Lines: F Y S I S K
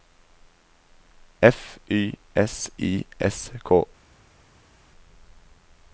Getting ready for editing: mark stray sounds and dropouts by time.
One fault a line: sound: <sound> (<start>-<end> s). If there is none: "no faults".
no faults